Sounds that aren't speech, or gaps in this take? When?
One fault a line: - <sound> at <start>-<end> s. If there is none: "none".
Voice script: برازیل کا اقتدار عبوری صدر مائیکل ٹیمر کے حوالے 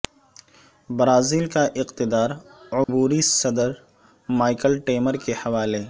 - dropout at 2.8-2.9 s